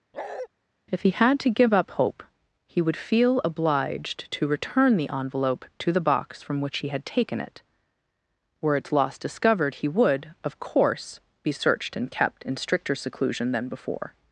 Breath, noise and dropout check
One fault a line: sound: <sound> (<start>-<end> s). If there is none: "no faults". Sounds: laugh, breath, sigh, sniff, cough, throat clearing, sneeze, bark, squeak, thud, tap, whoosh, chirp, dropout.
sound: bark (0.1-0.5 s)